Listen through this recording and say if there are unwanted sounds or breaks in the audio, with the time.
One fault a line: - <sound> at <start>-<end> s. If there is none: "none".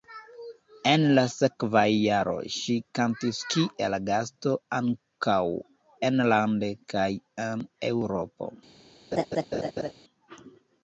- laugh at 9.1-9.9 s